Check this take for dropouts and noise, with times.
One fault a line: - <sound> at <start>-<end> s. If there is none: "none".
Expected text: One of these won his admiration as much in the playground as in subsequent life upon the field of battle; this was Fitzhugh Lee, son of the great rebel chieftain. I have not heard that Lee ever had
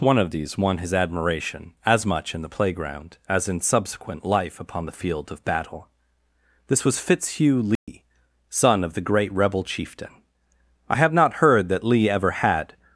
- dropout at 7.8-7.9 s